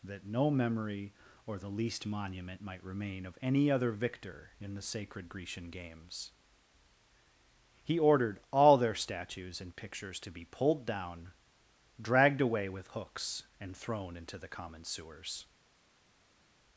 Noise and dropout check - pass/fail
pass